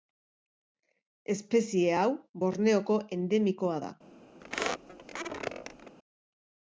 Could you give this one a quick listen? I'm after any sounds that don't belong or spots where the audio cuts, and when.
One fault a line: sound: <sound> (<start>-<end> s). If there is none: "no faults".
sound: squeak (4.4-6.0 s)